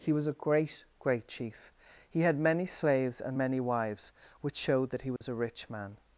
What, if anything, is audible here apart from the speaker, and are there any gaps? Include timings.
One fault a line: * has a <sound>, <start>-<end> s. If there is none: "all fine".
* has a dropout, 5.2-5.2 s